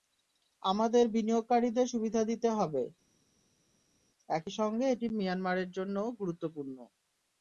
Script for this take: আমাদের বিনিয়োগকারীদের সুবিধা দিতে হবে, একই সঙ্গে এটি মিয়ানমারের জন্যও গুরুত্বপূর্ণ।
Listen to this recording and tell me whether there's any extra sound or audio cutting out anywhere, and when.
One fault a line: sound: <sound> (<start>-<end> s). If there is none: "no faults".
no faults